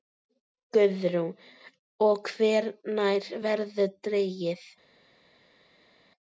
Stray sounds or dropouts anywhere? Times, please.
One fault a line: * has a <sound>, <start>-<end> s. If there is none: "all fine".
all fine